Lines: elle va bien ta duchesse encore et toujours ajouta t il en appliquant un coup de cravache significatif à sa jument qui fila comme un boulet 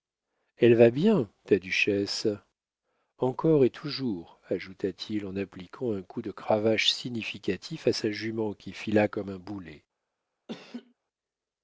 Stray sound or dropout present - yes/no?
yes